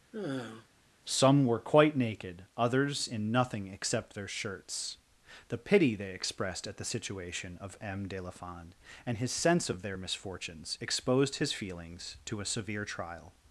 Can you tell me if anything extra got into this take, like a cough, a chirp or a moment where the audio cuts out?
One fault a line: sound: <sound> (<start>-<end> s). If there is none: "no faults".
sound: sigh (0.1-0.7 s)